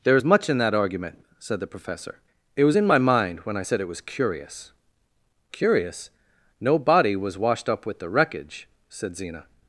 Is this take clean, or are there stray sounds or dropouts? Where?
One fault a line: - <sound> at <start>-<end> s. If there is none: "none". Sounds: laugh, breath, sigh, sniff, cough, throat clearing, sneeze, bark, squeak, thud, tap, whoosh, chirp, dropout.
none